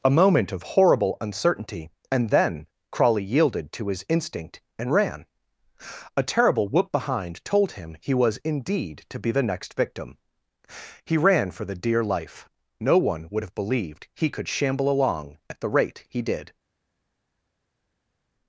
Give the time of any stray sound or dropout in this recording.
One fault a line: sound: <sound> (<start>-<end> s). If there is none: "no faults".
no faults